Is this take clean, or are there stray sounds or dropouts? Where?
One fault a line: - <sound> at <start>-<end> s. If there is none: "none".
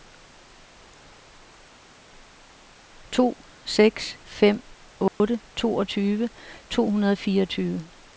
- dropout at 5.1-5.2 s